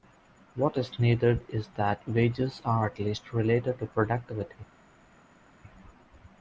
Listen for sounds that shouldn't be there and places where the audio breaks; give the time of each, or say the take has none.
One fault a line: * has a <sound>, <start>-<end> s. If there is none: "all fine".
all fine